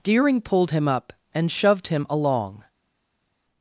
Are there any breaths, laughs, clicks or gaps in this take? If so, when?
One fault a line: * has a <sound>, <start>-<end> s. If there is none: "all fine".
all fine